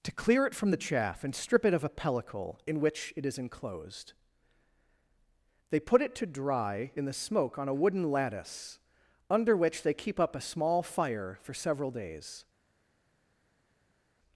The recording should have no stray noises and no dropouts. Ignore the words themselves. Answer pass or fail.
pass